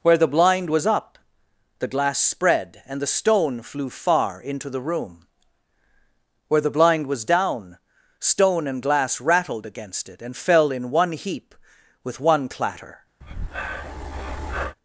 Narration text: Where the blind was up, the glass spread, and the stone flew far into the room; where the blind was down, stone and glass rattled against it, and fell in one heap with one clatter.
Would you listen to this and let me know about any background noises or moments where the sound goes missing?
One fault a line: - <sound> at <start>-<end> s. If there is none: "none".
- breath at 13.2-14.8 s